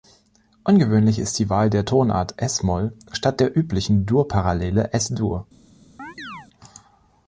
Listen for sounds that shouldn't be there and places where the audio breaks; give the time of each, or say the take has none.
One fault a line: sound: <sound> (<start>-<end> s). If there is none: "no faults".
sound: chirp (6.0-6.5 s)